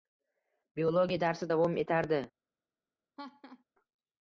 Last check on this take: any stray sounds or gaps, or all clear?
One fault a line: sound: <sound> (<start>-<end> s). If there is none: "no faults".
sound: laugh (3.2-3.6 s)